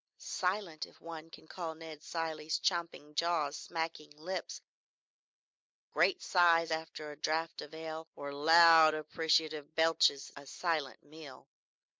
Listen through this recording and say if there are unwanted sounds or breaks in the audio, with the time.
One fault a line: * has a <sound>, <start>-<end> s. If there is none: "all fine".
all fine